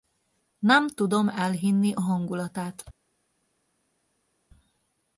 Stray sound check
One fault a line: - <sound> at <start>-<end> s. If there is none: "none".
none